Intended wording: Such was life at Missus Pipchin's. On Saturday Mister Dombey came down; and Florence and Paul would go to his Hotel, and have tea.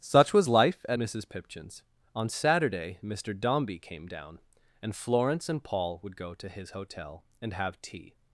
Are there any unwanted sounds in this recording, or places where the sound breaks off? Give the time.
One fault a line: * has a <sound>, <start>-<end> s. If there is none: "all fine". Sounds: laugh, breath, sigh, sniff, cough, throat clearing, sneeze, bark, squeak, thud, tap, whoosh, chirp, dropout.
all fine